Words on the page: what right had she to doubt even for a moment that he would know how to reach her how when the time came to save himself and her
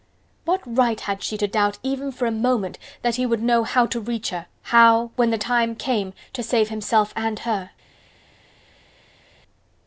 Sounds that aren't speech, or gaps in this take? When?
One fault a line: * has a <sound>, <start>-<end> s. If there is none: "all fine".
all fine